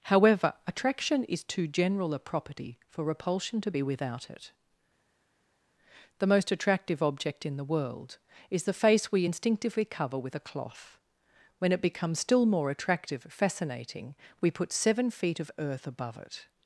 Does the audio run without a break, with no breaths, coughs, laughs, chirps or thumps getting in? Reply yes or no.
yes